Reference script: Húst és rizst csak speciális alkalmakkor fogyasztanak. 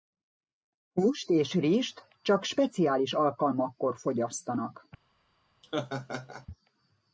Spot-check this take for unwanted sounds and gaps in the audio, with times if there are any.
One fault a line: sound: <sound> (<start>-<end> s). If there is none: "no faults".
sound: laugh (5.6-6.5 s)